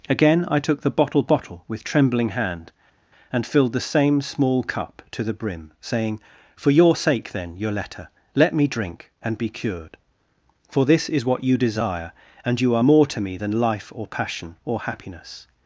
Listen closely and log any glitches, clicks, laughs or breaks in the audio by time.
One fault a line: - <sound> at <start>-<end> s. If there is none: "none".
none